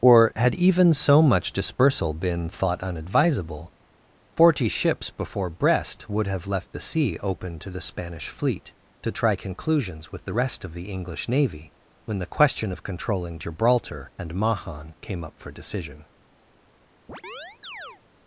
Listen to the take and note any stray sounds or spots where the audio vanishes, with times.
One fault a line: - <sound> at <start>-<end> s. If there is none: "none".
- chirp at 17.1-18.0 s